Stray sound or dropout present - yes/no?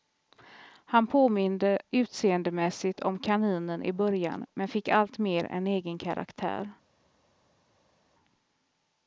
no